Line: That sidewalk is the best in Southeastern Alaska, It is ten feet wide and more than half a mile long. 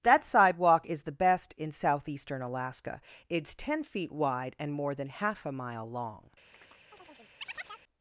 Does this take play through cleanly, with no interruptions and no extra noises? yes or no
no